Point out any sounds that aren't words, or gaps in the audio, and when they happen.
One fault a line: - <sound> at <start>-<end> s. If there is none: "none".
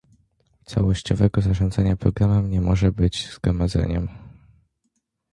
none